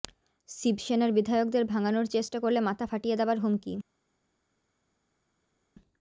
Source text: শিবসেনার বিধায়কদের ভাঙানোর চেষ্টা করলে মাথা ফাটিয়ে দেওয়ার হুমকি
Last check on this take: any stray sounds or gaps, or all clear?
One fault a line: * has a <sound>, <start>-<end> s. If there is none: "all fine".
all fine